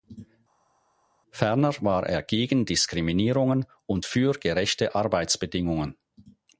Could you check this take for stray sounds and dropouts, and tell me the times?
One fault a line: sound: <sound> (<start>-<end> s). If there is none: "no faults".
no faults